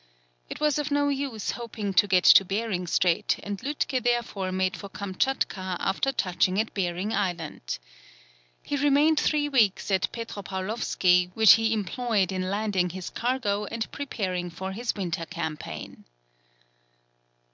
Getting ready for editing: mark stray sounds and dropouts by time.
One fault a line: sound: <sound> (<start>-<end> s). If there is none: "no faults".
no faults